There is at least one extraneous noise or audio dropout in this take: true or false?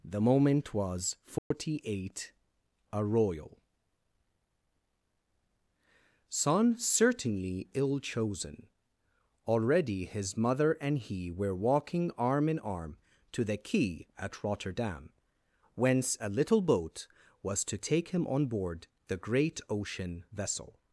true